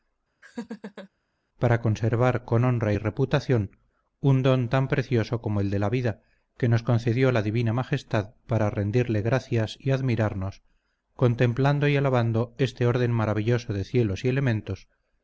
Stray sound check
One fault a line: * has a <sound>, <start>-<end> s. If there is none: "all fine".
* has a laugh, 0.4-1.1 s